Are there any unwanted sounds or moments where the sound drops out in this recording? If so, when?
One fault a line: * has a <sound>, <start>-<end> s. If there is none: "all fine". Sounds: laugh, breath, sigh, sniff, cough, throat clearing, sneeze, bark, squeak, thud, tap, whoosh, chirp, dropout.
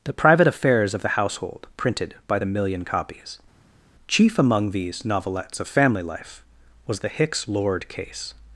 all fine